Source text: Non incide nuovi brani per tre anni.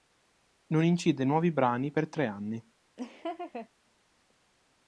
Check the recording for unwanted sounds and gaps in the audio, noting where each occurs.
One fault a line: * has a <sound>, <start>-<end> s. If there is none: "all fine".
* has a laugh, 3.0-3.7 s